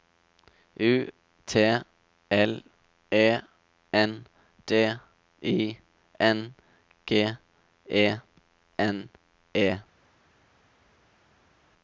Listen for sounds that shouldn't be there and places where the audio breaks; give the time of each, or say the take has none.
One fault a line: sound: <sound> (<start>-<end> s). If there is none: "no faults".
no faults